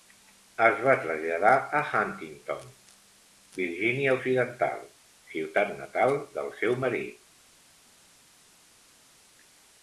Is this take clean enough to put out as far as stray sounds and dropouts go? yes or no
yes